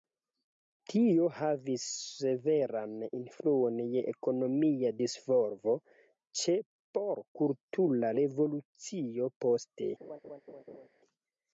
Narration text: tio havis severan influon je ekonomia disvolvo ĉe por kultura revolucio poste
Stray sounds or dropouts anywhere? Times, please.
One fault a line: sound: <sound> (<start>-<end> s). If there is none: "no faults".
sound: laugh (10.0-10.9 s)